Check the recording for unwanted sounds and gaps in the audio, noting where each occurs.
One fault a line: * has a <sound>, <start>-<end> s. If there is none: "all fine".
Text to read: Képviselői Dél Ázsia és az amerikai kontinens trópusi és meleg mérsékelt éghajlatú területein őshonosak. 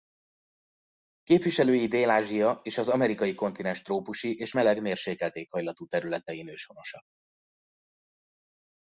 all fine